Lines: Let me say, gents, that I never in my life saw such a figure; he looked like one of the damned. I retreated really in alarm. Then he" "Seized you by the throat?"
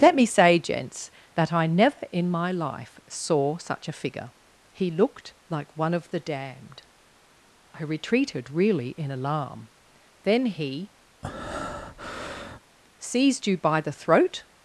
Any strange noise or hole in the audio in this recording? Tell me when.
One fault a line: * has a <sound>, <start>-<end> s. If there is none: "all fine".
* has a breath, 11.2-12.6 s